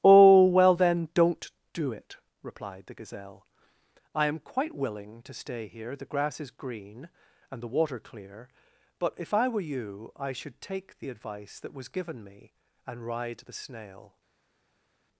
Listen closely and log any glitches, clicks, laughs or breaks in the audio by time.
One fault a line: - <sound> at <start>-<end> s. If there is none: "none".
none